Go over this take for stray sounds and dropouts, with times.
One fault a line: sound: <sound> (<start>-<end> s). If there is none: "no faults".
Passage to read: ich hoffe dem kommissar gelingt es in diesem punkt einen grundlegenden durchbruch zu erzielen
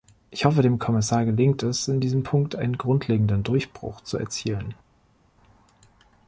no faults